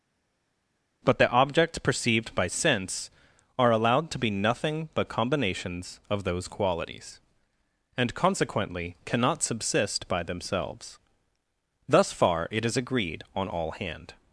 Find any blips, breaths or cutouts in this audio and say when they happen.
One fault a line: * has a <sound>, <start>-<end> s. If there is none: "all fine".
all fine